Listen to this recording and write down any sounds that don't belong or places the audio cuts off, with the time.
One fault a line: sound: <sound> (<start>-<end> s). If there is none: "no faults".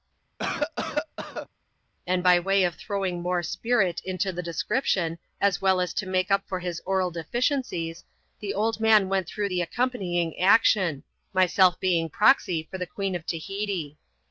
sound: cough (0.4-1.5 s)